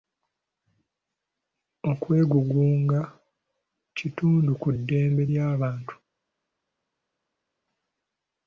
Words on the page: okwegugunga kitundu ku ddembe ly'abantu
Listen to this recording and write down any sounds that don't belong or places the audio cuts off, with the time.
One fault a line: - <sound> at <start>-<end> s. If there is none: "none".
none